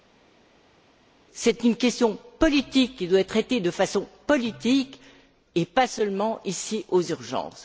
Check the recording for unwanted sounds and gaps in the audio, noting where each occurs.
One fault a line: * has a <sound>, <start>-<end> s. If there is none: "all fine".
all fine